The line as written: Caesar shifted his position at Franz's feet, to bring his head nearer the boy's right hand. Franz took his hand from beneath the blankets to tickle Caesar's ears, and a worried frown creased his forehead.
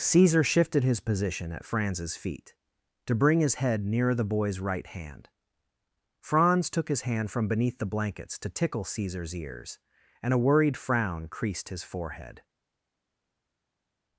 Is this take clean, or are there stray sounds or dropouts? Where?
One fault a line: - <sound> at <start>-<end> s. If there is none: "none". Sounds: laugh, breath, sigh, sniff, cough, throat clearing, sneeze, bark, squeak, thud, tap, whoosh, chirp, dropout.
none